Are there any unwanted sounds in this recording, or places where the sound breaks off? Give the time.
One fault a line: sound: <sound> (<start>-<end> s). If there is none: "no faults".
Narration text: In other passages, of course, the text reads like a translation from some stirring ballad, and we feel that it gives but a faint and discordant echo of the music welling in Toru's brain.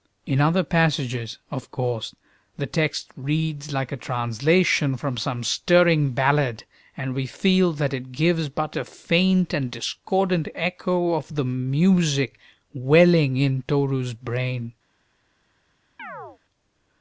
sound: chirp (16.0-16.4 s)